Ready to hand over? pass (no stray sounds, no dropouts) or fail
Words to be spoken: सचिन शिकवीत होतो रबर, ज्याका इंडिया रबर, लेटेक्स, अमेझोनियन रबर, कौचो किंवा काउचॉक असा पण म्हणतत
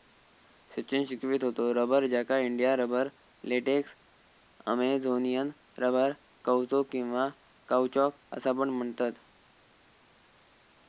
pass